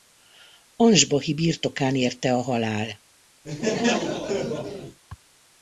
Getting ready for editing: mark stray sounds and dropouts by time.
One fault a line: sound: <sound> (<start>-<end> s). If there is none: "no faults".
sound: laugh (3.4-5.0 s)